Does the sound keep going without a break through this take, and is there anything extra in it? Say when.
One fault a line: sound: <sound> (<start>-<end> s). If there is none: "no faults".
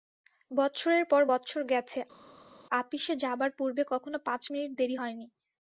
no faults